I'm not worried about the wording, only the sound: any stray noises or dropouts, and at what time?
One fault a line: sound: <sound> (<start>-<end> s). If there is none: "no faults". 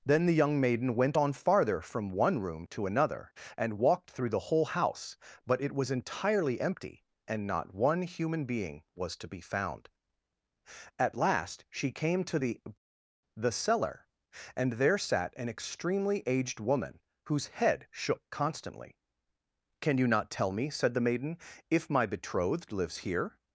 no faults